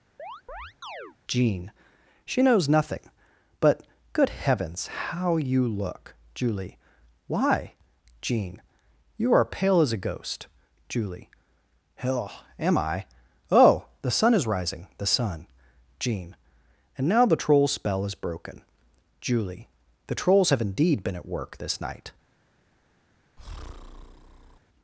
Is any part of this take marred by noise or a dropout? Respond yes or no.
yes